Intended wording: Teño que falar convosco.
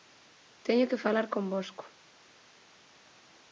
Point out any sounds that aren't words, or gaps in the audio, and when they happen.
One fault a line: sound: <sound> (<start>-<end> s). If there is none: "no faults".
no faults